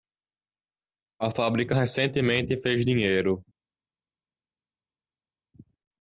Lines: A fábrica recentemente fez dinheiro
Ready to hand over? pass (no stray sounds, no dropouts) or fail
pass